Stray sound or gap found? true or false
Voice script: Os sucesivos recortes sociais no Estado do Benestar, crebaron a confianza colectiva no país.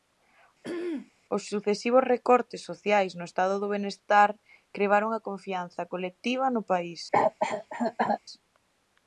true